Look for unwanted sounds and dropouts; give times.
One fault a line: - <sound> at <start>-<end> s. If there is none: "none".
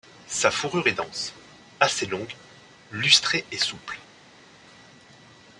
none